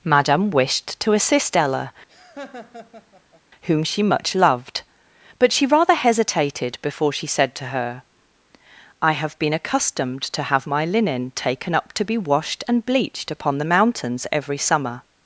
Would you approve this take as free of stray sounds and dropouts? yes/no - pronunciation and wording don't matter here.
no